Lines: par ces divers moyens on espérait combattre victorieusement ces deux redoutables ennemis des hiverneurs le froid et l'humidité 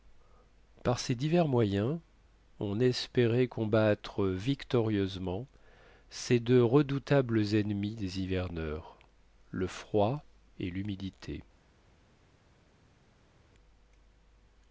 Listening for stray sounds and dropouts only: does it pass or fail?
pass